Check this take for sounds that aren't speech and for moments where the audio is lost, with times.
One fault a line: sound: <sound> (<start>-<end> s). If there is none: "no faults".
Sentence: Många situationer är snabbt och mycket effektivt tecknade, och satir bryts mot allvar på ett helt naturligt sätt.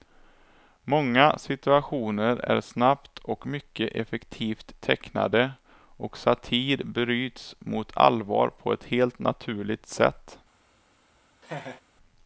sound: laugh (11.4-11.8 s)